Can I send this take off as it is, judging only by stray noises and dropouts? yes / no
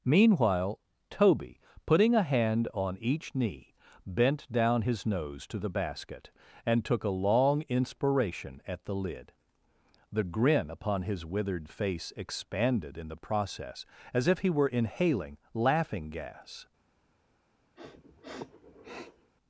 no